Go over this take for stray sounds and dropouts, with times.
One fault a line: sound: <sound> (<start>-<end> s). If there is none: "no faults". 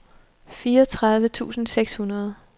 no faults